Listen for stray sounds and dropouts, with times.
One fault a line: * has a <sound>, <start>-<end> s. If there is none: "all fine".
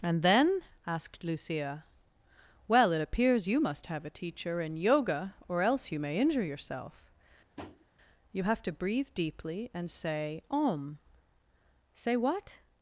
* has a tap, 7.6-7.9 s